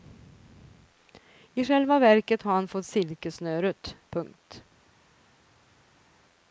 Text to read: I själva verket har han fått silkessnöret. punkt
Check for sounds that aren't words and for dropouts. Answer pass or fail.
pass